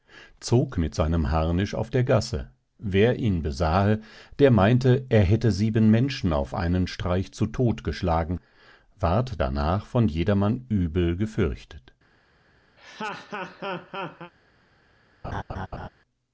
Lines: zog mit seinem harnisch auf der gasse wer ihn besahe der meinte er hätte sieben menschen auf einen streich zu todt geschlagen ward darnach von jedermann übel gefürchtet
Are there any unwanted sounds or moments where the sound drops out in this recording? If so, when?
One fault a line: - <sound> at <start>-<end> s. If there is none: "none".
- laugh at 12.8-14.3 s
- laugh at 15.2-15.9 s